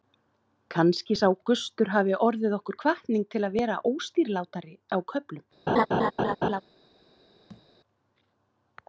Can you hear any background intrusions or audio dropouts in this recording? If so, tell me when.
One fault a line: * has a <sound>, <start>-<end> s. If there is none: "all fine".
* has a laugh, 5.7-6.6 s
* has a thud, 7.5-7.7 s